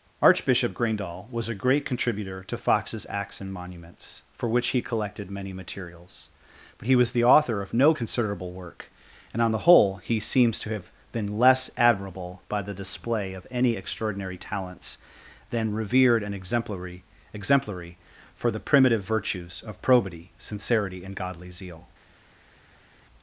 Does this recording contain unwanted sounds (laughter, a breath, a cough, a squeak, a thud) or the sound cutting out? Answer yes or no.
no